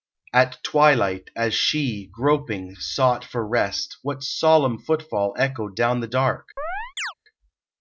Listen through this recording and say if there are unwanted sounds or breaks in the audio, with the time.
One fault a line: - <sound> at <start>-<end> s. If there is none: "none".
- chirp at 6.6-7.1 s